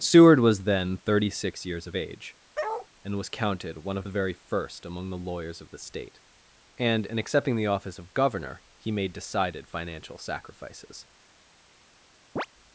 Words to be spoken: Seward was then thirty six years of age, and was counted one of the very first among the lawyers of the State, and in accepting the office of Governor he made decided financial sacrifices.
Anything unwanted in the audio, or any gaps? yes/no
yes